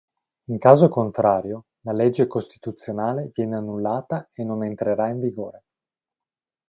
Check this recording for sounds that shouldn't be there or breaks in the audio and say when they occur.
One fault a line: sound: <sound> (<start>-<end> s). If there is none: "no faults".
no faults